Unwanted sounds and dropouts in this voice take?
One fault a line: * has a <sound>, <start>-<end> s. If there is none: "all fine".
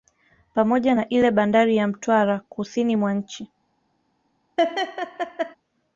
* has a laugh, 4.6-5.6 s